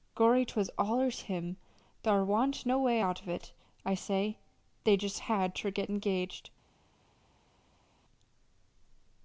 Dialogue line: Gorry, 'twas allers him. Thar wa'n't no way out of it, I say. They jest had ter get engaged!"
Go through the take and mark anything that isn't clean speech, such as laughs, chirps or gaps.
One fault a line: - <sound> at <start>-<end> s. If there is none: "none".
none